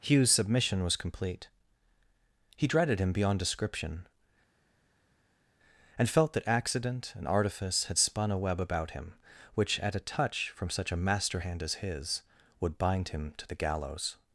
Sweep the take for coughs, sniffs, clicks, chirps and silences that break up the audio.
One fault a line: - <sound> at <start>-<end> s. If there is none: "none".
none